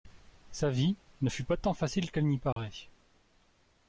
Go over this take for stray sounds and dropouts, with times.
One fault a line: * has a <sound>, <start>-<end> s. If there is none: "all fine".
* has a dropout, 2.5-2.6 s